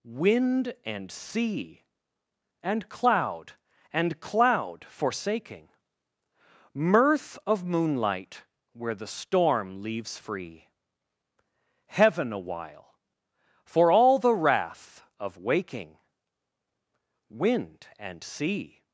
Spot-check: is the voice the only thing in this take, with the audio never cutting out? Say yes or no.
yes